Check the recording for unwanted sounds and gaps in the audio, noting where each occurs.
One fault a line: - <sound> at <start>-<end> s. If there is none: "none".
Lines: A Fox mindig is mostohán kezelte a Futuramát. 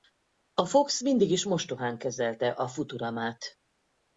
none